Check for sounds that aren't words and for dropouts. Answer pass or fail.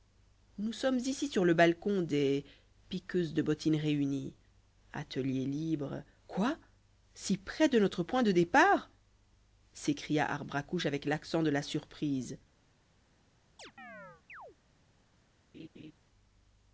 fail